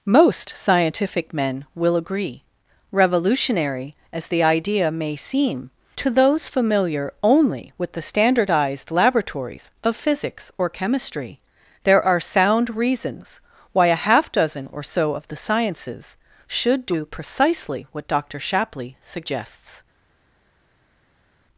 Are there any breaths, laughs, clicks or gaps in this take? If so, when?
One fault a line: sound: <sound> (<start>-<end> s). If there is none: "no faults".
no faults